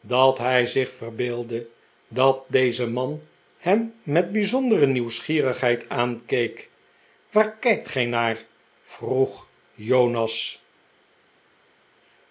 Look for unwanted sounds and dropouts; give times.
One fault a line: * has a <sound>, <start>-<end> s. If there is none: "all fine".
all fine